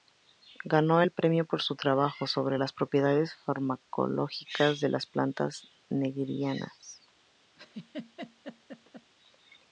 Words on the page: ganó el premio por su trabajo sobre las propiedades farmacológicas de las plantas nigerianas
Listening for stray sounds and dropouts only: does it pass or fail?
fail